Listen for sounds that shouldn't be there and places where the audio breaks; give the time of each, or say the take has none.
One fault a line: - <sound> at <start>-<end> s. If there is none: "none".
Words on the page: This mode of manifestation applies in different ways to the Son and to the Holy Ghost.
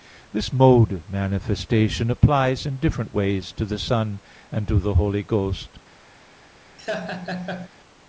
- laugh at 6.8-7.7 s